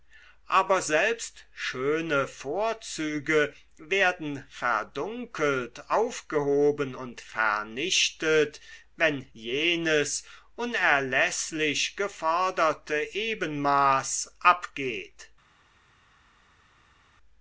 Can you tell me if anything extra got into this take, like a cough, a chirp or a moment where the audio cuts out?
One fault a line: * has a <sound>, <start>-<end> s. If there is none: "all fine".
all fine